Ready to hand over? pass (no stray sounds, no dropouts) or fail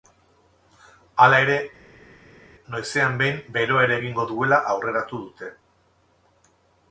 pass